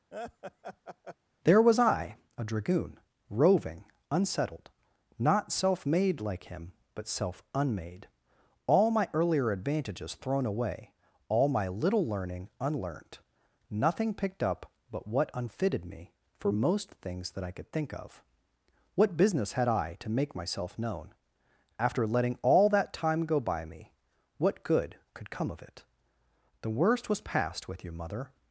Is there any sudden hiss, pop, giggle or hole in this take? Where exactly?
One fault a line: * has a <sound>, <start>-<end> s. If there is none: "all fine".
* has a laugh, 0.1-1.2 s